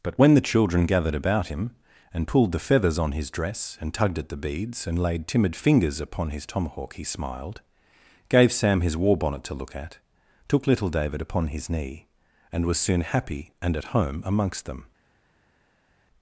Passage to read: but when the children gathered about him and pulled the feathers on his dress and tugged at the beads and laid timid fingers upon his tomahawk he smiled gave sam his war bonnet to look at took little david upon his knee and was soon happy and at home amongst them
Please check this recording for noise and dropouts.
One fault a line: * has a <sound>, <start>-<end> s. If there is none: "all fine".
all fine